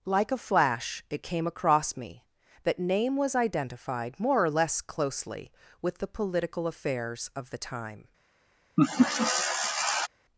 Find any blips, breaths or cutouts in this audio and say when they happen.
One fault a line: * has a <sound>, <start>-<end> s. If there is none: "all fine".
* has a laugh, 8.8-10.1 s